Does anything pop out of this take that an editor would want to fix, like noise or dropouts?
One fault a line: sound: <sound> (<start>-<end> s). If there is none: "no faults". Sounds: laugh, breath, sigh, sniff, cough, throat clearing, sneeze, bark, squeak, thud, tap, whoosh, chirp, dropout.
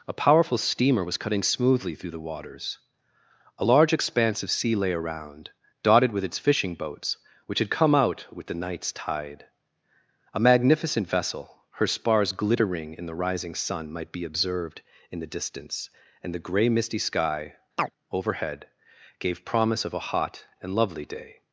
sound: chirp (17.8-17.9 s)